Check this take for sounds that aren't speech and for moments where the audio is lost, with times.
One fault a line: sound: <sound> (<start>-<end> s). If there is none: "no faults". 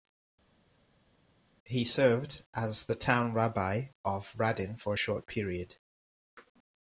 no faults